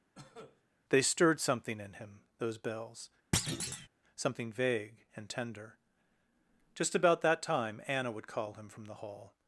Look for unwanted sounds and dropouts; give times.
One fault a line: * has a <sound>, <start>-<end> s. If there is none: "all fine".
* has a cough, 0.1-0.6 s
* has a thud, 3.3-3.9 s